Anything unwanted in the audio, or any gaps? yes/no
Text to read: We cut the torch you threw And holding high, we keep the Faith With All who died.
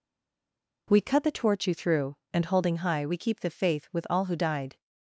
no